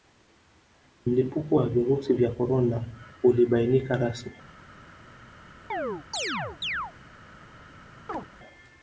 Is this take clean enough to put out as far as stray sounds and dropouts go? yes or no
no